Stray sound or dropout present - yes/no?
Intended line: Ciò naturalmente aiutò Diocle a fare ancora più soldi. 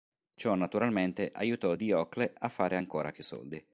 no